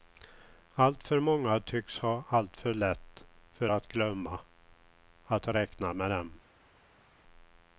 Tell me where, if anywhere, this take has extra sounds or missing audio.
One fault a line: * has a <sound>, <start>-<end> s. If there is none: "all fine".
all fine